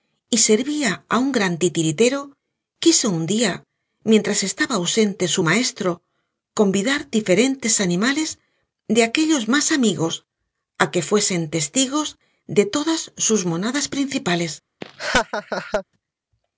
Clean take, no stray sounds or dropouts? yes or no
no